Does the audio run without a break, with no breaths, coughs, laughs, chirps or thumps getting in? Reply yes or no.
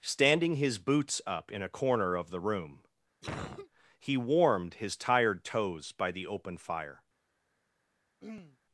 no